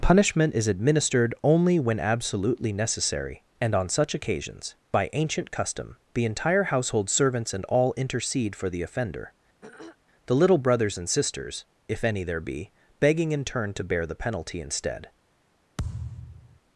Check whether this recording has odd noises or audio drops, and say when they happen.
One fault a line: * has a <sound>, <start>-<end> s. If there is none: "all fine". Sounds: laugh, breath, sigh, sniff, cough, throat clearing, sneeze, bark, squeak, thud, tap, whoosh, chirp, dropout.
* has a throat clearing, 9.6-10.0 s
* has a thud, 15.8-16.6 s